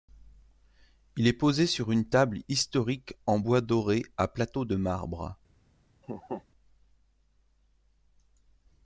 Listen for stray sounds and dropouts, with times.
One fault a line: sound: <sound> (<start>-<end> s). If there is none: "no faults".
sound: laugh (6.0-6.4 s)